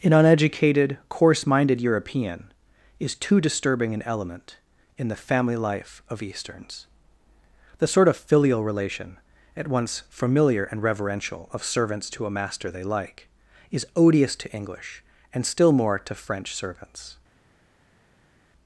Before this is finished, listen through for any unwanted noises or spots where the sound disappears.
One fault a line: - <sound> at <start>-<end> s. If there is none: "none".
none